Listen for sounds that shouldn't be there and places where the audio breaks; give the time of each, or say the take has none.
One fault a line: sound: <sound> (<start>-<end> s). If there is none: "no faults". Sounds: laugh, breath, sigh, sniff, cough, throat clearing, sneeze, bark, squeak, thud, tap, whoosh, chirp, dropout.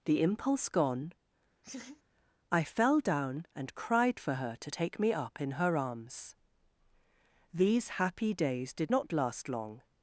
sound: laugh (1.6-2.0 s)